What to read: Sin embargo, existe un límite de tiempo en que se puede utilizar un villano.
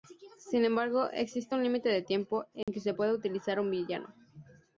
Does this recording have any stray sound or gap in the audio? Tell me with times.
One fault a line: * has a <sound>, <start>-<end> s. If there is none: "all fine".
* has a dropout, 2.6-2.7 s